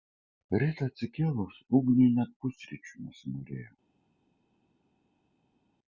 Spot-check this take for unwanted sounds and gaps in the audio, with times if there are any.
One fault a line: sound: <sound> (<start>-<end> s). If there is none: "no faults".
no faults